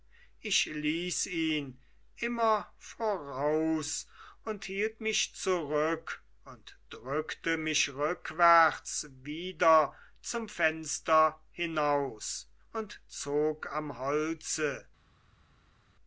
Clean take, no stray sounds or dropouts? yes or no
yes